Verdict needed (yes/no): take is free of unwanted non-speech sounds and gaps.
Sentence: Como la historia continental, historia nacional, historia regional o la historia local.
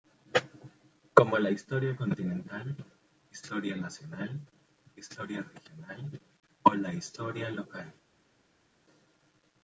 yes